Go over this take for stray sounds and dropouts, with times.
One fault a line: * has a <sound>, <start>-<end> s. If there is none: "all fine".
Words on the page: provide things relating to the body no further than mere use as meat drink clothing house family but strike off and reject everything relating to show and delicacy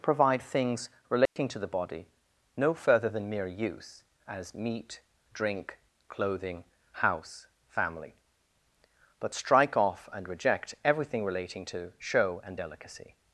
* has a dropout, 1.3-1.4 s